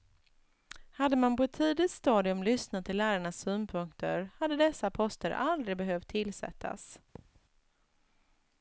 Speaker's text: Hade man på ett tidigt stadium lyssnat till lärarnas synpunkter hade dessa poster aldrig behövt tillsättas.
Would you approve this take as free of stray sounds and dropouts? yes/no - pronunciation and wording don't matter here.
no